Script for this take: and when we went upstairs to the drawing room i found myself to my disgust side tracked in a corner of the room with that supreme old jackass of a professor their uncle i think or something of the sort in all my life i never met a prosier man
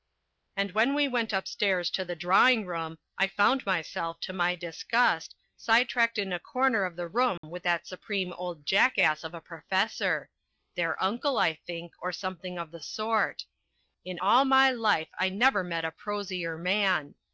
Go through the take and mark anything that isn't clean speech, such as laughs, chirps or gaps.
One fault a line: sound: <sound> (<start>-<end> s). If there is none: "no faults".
sound: dropout (7.4-7.4 s)